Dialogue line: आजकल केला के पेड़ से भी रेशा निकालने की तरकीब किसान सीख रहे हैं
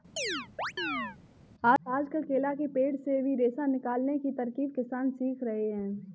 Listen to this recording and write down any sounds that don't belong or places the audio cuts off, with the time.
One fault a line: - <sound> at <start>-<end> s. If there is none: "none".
- chirp at 0.2-1.2 s